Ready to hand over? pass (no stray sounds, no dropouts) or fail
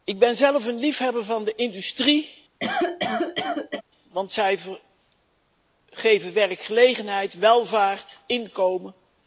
fail